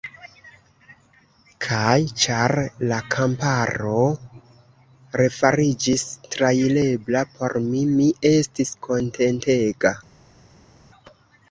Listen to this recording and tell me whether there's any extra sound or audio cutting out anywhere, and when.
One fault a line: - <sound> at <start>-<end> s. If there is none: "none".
none